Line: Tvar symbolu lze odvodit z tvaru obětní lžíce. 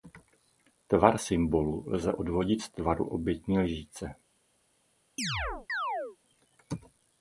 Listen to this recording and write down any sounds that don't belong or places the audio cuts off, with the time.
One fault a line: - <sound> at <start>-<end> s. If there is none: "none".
- chirp at 5.2-6.2 s